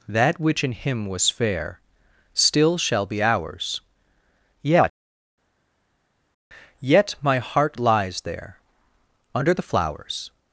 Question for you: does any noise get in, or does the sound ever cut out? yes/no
no